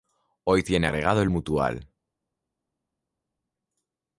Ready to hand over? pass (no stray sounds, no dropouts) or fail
pass